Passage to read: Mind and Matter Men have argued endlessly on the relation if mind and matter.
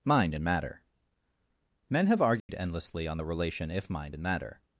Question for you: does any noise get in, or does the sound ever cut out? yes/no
yes